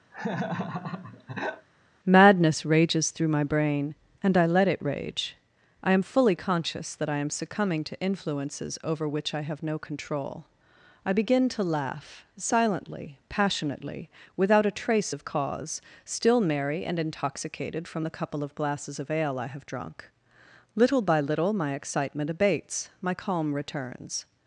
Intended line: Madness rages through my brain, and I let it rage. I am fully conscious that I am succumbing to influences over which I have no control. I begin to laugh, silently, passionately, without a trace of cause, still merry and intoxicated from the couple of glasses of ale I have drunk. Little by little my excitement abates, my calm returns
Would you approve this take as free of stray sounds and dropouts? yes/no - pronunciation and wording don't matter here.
no